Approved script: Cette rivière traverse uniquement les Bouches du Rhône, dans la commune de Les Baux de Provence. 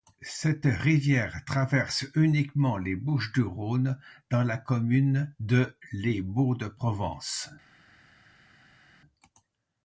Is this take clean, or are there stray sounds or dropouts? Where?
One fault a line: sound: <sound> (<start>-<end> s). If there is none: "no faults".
no faults